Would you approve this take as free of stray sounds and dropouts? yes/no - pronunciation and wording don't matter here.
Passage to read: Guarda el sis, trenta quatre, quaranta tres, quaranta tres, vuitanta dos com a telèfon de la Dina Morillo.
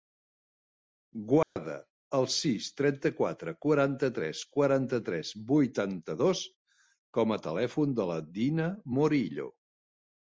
no